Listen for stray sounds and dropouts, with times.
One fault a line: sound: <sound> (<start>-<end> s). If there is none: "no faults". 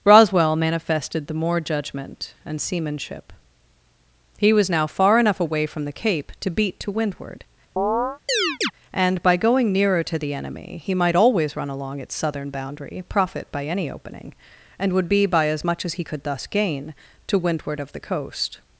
sound: chirp (7.8-8.7 s)